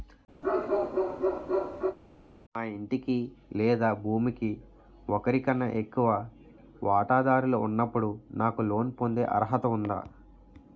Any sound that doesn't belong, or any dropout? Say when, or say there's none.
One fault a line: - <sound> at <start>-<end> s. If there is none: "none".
- bark at 0.4-2.0 s